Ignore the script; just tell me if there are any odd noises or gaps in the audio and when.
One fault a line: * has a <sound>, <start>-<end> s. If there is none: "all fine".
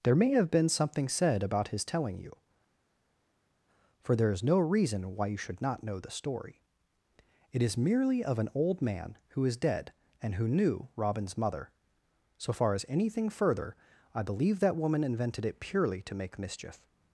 all fine